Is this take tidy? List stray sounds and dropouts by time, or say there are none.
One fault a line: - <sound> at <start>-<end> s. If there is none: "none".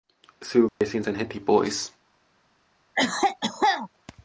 - dropout at 0.7-0.8 s
- cough at 3.0-3.9 s